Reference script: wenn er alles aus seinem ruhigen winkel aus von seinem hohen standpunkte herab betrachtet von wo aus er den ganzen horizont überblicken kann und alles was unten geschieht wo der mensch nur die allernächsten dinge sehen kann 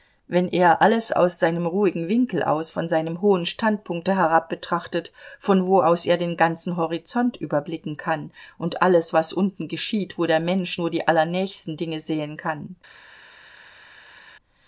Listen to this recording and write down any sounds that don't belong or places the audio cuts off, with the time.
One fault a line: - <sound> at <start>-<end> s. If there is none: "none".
none